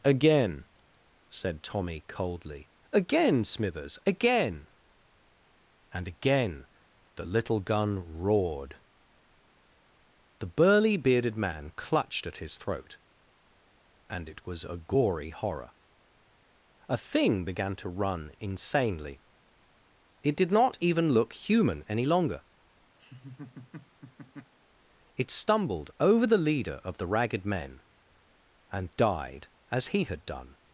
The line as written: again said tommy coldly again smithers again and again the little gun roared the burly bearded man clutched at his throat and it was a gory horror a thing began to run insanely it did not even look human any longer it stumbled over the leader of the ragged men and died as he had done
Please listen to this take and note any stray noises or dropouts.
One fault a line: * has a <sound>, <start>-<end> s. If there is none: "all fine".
* has a laugh, 23.0-24.5 s